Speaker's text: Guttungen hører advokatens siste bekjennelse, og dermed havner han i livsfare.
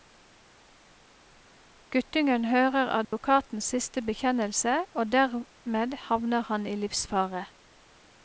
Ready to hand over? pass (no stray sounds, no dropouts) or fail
fail